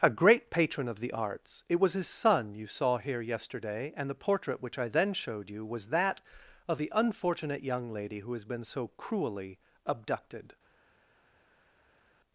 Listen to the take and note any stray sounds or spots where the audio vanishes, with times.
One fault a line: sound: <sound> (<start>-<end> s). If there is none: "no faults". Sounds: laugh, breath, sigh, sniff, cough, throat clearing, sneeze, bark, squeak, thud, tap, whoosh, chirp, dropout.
no faults